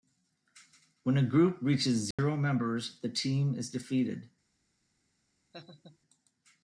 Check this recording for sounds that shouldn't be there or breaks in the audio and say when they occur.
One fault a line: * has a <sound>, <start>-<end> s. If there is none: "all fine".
* has a dropout, 2.1-2.2 s
* has a laugh, 5.5-6.0 s